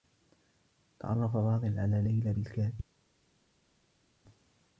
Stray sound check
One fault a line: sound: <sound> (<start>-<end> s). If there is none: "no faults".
no faults